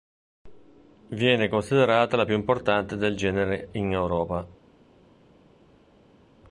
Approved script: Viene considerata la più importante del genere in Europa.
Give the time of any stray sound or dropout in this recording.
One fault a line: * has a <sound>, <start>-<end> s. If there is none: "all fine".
all fine